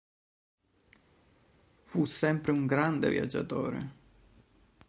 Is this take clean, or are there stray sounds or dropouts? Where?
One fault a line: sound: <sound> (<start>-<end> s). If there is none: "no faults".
no faults